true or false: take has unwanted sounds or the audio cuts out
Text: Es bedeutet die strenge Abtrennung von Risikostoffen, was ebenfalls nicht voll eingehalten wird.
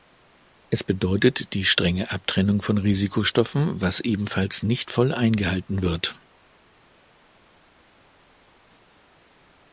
false